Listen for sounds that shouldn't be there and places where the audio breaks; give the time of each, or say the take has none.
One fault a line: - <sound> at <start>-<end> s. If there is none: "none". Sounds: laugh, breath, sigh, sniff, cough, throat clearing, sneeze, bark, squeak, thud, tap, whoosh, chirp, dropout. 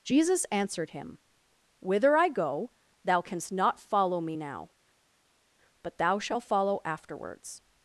none